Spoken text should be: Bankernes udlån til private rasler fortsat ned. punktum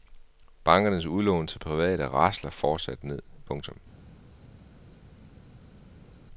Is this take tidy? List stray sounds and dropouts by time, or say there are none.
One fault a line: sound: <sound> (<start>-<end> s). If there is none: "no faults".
no faults